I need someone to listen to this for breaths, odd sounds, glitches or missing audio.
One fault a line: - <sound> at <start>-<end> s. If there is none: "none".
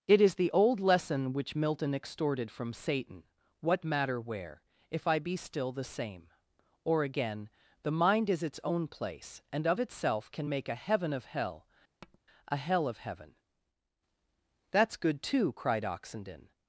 - tap at 12.0-12.2 s